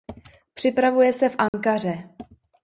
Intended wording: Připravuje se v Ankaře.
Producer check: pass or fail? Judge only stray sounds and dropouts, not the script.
fail